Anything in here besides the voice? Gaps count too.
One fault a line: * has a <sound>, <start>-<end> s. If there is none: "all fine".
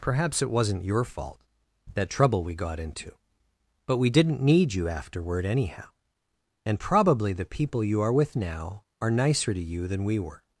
all fine